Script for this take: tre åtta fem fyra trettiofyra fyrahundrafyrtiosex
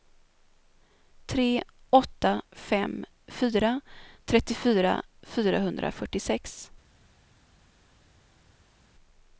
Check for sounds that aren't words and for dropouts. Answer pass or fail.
pass